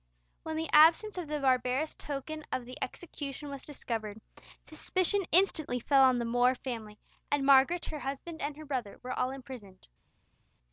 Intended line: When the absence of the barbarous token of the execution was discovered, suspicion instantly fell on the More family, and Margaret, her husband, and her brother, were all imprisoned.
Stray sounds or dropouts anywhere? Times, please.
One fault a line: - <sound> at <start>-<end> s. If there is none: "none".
none